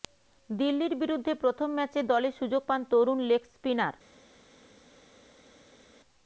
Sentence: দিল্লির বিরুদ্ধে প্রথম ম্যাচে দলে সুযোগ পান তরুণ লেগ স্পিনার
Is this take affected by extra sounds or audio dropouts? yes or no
no